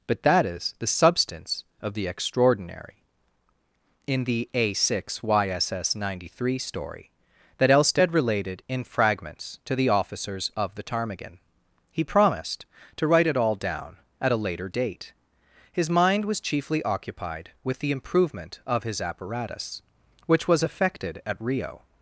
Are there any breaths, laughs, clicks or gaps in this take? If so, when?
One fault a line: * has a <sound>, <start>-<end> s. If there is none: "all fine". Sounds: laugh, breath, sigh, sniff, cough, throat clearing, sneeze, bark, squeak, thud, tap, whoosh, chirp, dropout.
all fine